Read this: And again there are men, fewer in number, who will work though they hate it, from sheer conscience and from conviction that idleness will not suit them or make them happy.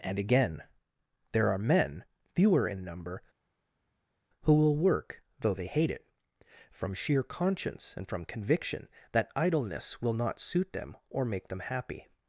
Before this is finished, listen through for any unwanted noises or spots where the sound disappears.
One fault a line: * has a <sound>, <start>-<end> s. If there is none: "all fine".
all fine